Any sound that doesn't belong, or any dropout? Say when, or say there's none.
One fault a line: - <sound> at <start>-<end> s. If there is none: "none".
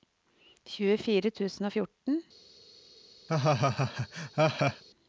- laugh at 3.3-4.8 s